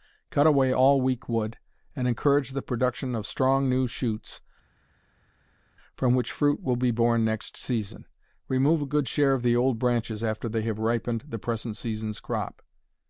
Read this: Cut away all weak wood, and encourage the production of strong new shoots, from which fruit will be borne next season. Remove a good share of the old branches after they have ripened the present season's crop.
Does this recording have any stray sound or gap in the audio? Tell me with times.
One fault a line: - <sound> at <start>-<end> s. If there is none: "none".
none